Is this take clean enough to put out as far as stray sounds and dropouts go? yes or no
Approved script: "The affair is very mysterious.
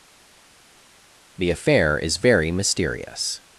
yes